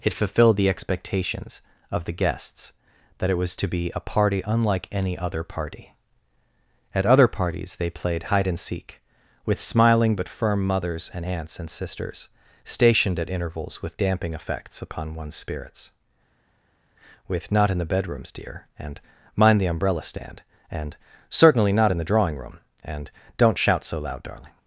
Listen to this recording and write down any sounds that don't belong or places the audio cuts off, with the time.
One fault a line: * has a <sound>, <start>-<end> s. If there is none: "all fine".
all fine